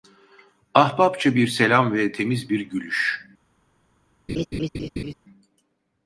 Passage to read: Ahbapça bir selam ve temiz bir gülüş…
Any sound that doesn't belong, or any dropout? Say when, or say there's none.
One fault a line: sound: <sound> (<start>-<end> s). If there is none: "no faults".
sound: laugh (4.3-5.1 s)